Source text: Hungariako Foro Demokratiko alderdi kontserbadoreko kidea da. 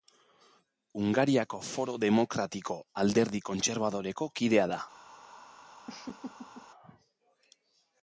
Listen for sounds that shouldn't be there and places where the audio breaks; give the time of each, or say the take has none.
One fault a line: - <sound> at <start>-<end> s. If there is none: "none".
- laugh at 5.9-6.7 s